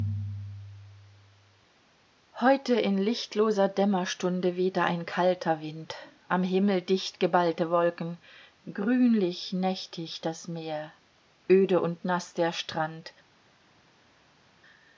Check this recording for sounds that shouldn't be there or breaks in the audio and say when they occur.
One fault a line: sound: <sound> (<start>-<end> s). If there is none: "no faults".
no faults